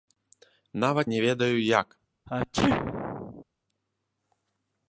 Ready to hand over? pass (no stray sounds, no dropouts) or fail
fail